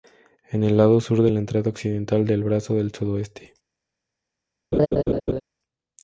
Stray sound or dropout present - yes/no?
yes